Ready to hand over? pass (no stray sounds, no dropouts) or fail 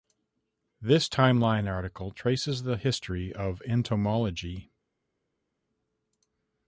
pass